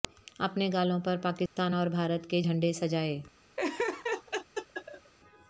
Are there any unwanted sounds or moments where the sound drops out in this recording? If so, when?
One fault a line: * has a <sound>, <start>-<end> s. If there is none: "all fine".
* has a dropout, 1.5-1.6 s
* has a laugh, 3.6-5.1 s